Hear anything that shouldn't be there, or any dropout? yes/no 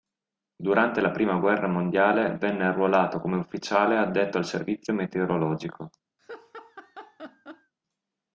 yes